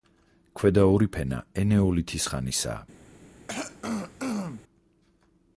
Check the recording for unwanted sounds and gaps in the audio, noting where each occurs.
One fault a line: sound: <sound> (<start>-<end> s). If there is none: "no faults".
sound: throat clearing (3.5-4.6 s)